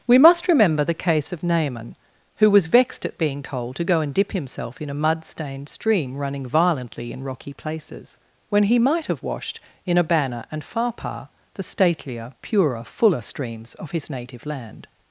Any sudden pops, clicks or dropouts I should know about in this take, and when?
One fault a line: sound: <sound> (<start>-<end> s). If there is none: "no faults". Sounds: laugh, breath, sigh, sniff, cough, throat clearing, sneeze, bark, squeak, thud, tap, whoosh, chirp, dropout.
no faults